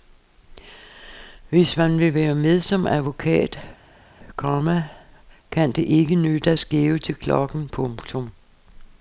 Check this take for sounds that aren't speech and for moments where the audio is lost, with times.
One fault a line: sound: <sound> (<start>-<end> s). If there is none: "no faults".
no faults